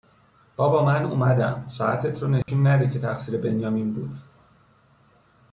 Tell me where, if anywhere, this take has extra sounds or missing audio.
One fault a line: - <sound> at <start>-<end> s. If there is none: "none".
- dropout at 2.4-2.5 s